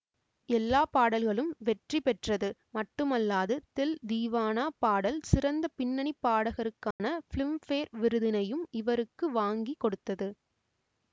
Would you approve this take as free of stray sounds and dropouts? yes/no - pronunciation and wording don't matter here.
no